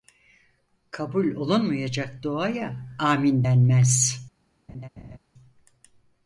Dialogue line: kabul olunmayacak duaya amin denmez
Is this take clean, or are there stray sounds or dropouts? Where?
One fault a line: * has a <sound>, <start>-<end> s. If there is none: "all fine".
* has a laugh, 4.7-5.2 s